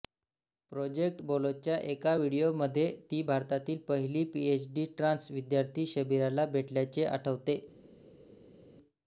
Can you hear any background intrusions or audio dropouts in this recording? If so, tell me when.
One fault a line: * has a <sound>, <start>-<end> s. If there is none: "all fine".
all fine